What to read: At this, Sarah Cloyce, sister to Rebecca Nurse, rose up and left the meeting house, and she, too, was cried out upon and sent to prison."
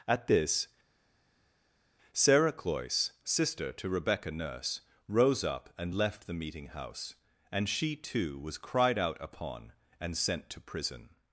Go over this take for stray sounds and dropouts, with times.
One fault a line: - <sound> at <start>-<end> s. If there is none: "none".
none